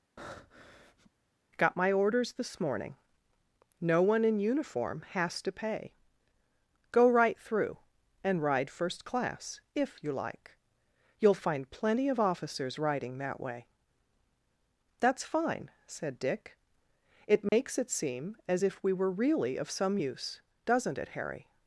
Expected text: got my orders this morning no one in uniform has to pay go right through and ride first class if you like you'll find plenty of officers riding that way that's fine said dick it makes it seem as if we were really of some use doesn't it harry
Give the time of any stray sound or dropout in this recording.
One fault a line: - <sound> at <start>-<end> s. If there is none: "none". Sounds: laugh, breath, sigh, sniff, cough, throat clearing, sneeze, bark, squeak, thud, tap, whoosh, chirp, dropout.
- breath at 0.2-1.1 s
- dropout at 17.5-17.5 s